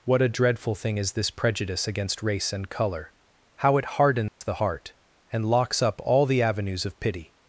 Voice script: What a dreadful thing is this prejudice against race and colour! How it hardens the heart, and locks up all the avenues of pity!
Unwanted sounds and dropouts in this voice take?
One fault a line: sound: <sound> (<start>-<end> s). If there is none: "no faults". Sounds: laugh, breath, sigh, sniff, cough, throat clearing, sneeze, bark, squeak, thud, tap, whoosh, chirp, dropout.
sound: dropout (4.3-4.4 s)